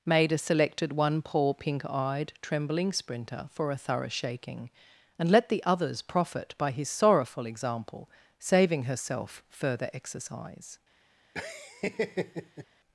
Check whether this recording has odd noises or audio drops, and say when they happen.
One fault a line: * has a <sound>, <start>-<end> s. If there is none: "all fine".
* has a laugh, 11.3-12.7 s